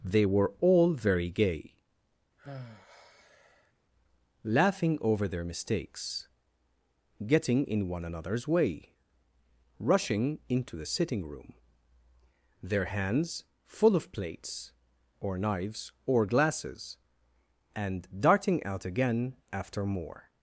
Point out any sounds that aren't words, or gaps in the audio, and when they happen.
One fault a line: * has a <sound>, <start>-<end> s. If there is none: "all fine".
* has a sigh, 2.4-3.7 s